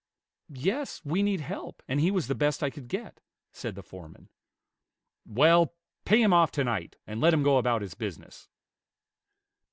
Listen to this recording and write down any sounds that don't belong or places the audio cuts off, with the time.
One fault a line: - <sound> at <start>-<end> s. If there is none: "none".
none